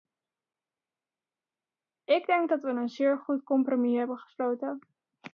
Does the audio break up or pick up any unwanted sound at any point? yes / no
no